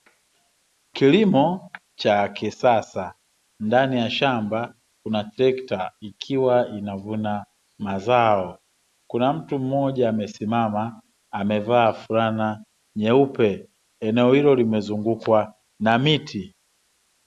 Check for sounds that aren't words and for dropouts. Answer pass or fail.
pass